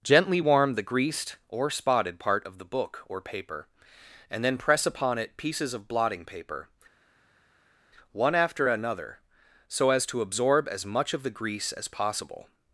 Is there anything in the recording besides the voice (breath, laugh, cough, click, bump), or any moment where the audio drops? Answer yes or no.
no